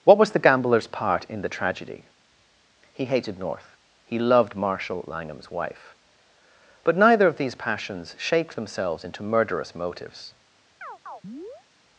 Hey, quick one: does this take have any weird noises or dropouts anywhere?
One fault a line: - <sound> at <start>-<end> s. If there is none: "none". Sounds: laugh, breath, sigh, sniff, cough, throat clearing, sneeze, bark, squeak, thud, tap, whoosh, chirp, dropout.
- chirp at 10.8-11.6 s